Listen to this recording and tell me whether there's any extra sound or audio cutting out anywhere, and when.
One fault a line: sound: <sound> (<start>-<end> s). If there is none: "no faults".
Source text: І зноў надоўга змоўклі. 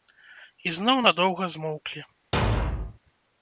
sound: thud (2.3-3.0 s)